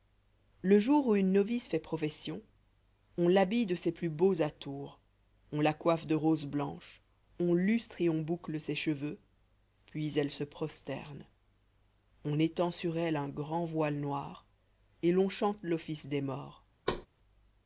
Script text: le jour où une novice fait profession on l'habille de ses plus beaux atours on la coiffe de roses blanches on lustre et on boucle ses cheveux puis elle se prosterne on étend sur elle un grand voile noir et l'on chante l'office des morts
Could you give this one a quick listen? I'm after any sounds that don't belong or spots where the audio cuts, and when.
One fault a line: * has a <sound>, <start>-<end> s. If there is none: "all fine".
* has a thud, 16.9-17.1 s